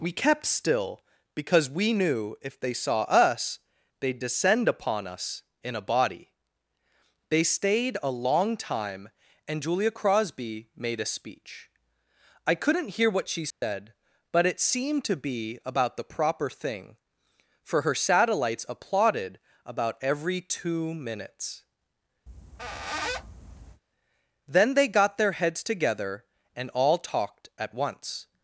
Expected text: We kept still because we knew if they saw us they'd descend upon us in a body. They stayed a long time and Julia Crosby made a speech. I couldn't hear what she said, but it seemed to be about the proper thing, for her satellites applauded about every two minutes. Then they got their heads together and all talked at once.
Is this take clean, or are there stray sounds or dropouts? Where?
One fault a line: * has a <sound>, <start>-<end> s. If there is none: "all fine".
* has a dropout, 13.5-13.6 s
* has a squeak, 22.3-23.8 s